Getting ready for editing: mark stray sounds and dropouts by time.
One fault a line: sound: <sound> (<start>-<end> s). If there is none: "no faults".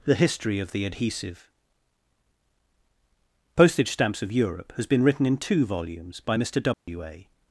sound: dropout (6.7-6.9 s)